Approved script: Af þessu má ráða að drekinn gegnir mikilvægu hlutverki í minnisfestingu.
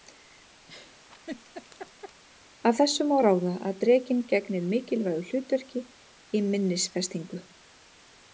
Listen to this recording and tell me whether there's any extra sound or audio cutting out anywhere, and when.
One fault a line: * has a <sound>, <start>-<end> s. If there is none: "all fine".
* has a laugh, 0.7-2.2 s